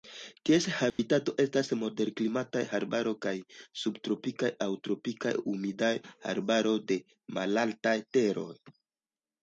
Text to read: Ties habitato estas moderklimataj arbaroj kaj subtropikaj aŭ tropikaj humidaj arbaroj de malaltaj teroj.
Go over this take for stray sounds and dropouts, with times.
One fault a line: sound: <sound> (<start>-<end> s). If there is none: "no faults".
sound: dropout (0.9-1.0 s)